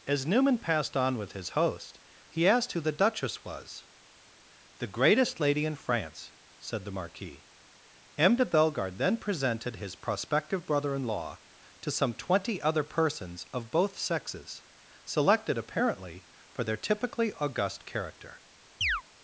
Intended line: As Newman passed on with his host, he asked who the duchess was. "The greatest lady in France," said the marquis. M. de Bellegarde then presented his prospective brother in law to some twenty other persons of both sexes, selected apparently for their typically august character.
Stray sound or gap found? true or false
true